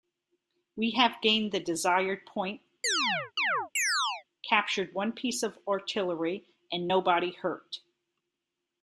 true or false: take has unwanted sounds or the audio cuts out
true